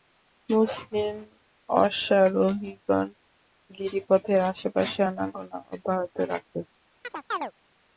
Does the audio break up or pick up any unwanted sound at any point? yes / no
yes